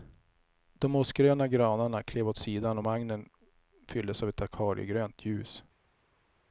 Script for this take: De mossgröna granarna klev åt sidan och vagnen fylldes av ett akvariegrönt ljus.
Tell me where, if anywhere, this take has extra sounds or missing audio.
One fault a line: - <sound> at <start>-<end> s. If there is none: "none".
none